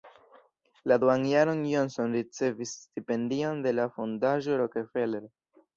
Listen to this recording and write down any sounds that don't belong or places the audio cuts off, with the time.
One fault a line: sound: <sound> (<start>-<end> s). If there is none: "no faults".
no faults